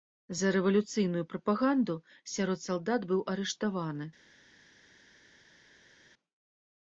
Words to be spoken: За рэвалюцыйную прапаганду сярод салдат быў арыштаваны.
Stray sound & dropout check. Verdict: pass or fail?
pass